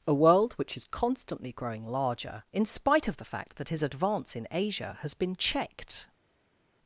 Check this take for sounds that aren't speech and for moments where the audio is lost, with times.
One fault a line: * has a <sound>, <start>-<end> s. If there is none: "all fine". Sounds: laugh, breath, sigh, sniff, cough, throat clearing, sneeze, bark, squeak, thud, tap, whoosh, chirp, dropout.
all fine